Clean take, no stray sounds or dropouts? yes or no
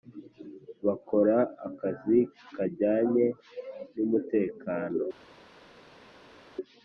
yes